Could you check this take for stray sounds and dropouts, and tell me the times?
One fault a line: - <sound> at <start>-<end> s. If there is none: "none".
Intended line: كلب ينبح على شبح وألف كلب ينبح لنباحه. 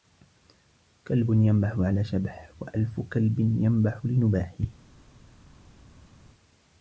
none